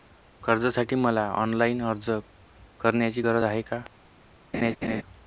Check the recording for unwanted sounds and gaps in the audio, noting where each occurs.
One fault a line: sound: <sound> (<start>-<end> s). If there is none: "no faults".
sound: laugh (4.5-5.0 s)